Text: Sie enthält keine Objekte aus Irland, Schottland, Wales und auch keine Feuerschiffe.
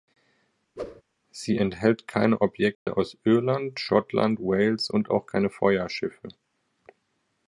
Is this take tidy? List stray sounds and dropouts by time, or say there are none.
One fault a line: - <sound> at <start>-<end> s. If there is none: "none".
- whoosh at 0.8-1.0 s
- dropout at 2.7-2.9 s